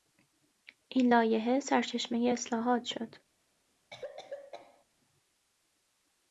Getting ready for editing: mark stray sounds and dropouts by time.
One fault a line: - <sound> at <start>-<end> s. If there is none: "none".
- cough at 3.9-4.8 s